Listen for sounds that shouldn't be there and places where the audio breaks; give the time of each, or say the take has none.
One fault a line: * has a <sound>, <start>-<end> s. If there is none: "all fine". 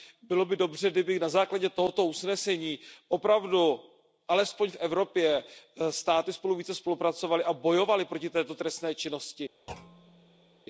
* has a thud, 9.7-10.6 s